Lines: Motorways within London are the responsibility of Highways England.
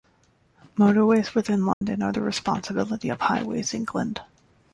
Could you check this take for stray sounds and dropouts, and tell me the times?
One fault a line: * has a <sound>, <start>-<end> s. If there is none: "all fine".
* has a dropout, 1.7-1.8 s